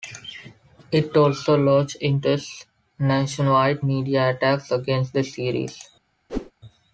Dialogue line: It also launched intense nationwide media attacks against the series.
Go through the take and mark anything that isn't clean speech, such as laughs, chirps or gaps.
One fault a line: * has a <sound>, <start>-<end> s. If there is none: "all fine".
* has a whoosh, 6.3-6.5 s